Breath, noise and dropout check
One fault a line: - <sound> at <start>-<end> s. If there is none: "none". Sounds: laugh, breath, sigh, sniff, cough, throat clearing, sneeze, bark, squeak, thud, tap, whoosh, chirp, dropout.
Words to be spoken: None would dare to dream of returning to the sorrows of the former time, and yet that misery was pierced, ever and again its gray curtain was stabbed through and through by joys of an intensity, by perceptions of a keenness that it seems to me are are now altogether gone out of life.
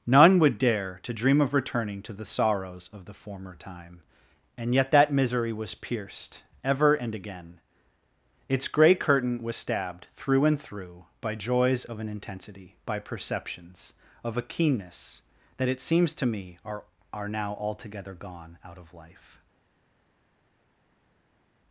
none